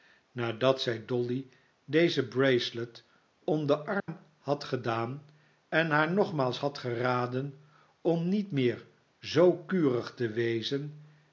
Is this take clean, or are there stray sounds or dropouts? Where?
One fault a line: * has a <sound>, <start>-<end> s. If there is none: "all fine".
* has a dropout, 4.0-4.1 s